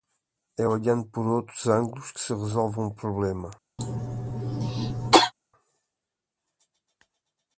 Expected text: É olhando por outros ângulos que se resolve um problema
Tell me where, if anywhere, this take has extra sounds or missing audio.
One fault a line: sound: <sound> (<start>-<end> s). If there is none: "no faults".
sound: cough (3.8-5.3 s)